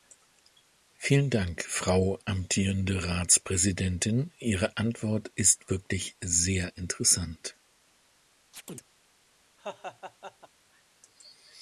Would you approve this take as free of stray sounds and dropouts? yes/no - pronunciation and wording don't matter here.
no